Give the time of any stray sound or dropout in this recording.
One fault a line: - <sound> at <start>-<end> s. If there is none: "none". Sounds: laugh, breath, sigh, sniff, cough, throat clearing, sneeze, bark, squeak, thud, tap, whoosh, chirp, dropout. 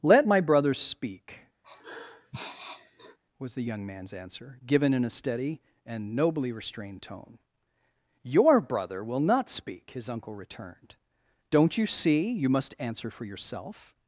- sniff at 1.6-3.2 s